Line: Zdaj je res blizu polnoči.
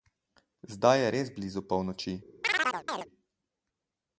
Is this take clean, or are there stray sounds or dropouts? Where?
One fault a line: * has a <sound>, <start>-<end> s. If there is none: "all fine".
* has a chirp, 2.4-3.1 s